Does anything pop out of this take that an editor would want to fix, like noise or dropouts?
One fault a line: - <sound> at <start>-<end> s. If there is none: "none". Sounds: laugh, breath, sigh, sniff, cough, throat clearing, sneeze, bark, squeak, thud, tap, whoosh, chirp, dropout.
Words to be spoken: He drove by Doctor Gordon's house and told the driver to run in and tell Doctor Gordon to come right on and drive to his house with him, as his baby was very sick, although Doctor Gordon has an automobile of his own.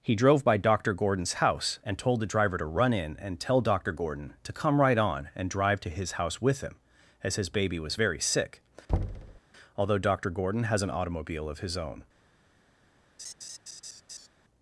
- thud at 8.9-9.4 s
- laugh at 13.2-14.3 s